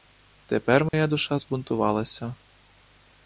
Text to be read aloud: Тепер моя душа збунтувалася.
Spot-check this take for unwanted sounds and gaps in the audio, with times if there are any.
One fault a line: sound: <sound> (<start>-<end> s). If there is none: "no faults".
sound: dropout (0.9-0.9 s)